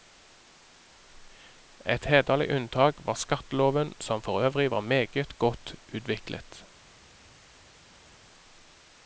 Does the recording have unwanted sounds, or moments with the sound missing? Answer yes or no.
no